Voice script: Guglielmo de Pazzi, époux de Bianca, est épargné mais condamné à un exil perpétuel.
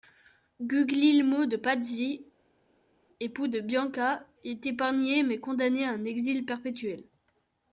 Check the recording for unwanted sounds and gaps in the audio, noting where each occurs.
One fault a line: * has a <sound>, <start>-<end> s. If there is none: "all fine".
all fine